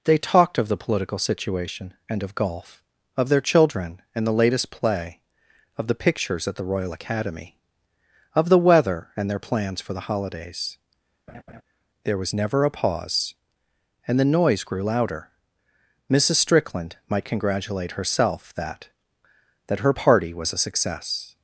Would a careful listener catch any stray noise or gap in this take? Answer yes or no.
yes